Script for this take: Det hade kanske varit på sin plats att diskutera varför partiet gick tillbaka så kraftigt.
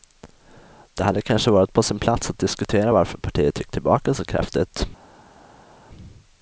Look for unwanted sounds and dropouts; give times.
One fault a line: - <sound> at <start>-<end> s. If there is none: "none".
none